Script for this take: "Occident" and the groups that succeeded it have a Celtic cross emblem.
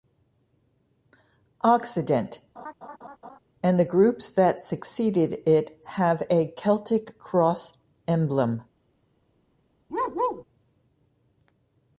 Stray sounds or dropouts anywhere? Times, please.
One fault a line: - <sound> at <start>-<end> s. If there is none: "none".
- laugh at 2.6-3.4 s
- bark at 9.9-10.4 s